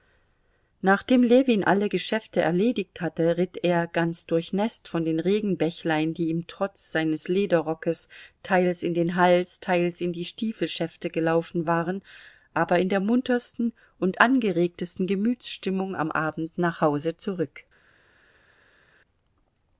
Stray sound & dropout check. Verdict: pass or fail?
pass